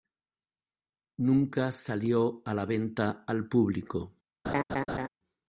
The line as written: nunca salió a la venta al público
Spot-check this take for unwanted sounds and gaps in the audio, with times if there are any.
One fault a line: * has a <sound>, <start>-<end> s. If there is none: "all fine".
* has a laugh, 4.4-5.1 s